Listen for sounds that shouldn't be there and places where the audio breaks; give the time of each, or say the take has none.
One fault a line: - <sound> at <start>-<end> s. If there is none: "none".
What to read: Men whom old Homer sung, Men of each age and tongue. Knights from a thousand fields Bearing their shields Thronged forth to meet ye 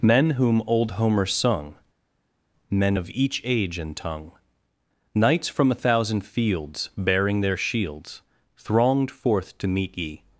none